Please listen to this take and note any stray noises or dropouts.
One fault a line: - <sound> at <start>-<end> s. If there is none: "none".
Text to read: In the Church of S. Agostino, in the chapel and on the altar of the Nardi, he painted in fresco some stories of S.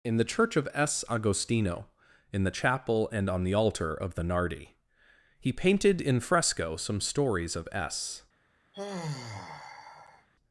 - sigh at 8.7-10.3 s